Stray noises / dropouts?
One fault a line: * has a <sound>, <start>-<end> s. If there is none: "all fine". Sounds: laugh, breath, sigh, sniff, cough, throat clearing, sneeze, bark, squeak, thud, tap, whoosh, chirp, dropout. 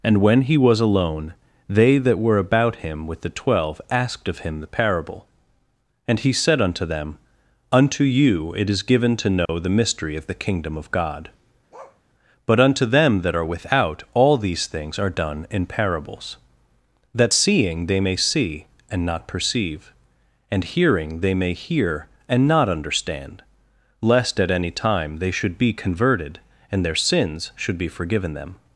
* has a dropout, 9.5-9.5 s
* has a bark, 11.7-12.0 s